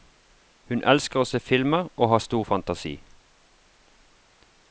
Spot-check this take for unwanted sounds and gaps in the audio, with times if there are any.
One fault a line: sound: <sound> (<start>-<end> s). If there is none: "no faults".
no faults